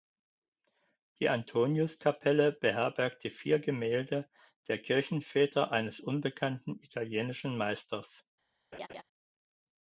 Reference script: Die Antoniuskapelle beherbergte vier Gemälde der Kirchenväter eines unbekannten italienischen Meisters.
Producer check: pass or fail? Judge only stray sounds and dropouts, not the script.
fail